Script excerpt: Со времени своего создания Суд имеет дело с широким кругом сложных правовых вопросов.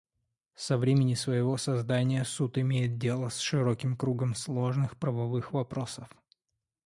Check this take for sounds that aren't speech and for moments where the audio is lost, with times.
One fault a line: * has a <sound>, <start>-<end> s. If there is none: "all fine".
all fine